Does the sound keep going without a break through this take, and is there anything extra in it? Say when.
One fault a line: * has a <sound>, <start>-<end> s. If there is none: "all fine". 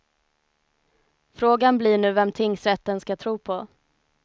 all fine